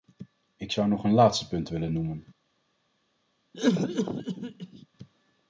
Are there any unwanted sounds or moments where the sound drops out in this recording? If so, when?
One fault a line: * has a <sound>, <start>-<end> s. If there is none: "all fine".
* has a cough, 3.5-4.9 s